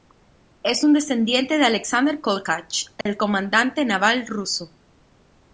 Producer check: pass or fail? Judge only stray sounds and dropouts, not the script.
fail